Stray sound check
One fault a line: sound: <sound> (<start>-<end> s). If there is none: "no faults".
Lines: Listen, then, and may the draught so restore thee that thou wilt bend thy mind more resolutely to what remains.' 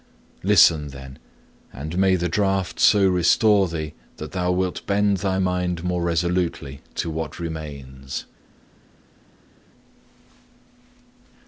no faults